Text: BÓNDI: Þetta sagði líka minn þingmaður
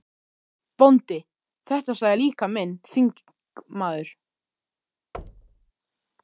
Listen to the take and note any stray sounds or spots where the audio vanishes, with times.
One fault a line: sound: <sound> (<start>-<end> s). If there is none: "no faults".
sound: thud (5.1-5.7 s)